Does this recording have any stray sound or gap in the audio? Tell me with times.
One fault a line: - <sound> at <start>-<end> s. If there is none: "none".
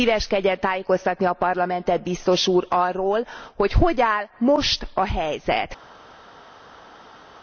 none